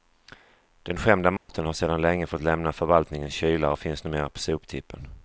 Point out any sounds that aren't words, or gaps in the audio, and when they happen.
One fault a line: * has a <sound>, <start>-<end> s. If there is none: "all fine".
* has a dropout, 1.4-1.5 s